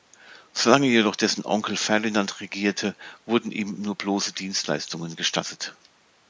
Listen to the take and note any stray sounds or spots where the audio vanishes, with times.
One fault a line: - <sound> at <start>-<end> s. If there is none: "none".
none